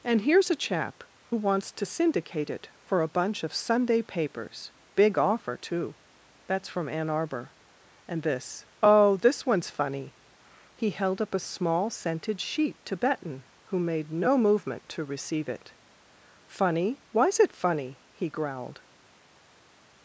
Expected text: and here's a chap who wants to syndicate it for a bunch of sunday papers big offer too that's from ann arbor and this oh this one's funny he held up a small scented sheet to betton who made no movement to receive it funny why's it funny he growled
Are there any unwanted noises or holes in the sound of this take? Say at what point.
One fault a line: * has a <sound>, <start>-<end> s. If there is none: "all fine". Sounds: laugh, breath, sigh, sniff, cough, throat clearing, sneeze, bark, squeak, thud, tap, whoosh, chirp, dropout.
all fine